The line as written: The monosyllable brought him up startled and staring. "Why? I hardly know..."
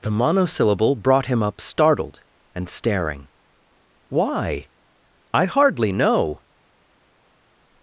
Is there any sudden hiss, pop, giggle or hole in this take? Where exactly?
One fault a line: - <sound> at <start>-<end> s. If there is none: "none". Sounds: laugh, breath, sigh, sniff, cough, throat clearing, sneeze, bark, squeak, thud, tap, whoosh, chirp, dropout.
none